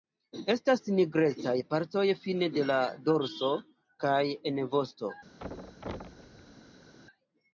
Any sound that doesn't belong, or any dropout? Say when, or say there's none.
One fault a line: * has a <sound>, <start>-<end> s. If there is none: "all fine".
* has a thud, 5.4-6.9 s